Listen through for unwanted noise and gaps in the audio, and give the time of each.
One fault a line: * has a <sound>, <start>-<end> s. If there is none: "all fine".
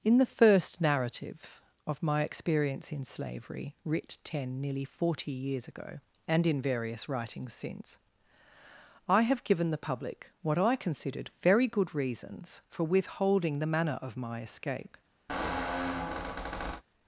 * has a squeak, 15.3-16.8 s